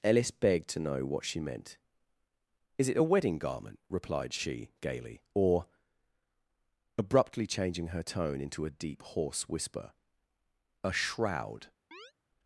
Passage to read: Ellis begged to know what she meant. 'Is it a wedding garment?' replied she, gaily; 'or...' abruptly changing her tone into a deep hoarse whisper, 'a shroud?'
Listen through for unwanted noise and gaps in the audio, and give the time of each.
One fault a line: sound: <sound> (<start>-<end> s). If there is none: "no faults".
sound: chirp (11.9-12.1 s)